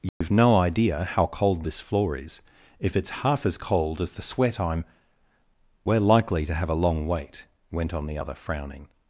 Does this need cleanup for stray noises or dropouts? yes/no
yes